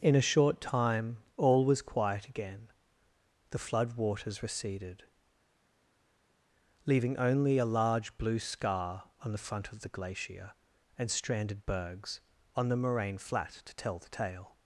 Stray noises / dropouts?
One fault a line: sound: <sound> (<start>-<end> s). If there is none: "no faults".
no faults